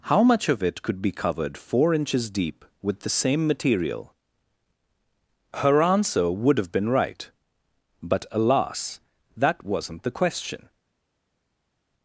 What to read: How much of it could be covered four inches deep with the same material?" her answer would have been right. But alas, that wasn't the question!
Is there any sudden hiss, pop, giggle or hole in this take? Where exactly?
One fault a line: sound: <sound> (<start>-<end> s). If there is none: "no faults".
no faults